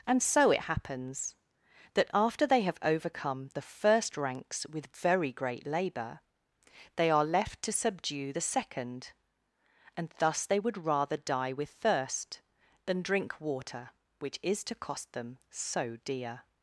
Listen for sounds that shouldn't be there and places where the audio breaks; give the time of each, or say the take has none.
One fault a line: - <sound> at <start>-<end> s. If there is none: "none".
none